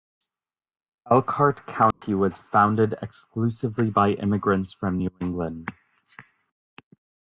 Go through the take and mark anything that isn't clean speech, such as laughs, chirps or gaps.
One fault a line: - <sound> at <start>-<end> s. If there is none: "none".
- dropout at 1.9-2.0 s